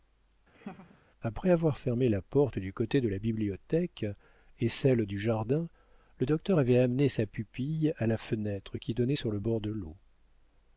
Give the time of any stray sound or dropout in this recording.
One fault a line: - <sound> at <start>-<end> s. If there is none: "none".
- laugh at 0.5-1.0 s